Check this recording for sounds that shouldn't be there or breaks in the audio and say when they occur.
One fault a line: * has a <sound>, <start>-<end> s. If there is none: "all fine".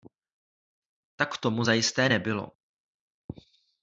all fine